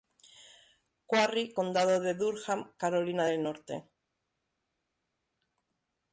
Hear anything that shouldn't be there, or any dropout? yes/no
no